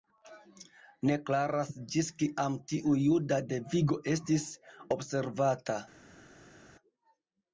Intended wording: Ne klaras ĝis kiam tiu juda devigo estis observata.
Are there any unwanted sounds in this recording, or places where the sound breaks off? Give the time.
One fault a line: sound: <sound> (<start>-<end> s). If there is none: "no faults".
no faults